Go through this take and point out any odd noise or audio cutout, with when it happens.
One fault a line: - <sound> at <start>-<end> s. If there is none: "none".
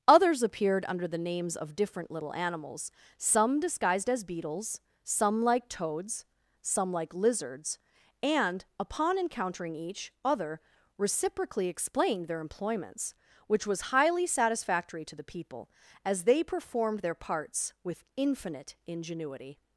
none